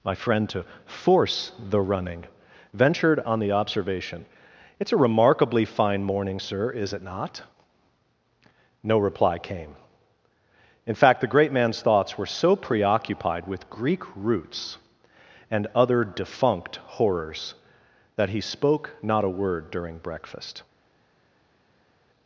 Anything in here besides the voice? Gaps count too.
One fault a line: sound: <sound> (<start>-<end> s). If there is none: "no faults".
no faults